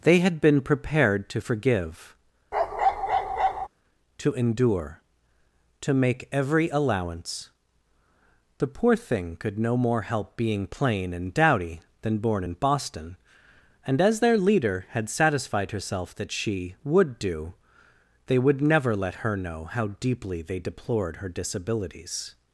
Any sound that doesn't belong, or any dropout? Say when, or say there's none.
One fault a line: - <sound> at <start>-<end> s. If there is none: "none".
- bark at 2.5-3.7 s